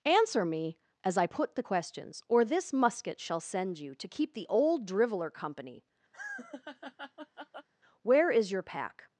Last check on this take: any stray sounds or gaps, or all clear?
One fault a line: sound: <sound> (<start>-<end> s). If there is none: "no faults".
sound: laugh (6.1-7.7 s)